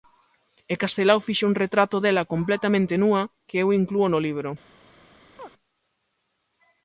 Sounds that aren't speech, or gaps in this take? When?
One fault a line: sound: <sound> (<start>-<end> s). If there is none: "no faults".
sound: chirp (5.4-5.5 s)